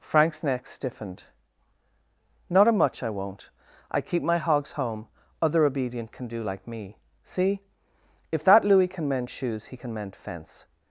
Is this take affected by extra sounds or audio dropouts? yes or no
no